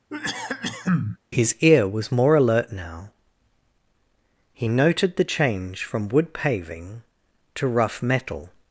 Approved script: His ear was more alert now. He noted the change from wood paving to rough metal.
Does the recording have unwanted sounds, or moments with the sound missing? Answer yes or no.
yes